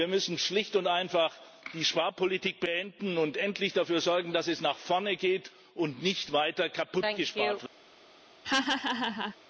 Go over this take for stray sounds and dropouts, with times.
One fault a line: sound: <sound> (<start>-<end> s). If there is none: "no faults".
sound: laugh (8.4-9.4 s)